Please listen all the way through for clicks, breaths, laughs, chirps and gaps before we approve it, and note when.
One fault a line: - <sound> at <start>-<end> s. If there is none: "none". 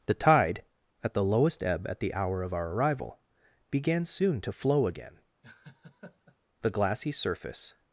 - laugh at 5.4-6.4 s